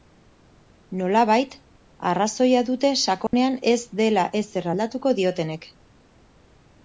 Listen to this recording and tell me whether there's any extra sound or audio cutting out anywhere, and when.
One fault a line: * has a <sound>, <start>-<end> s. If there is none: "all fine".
* has a dropout, 3.3-3.3 s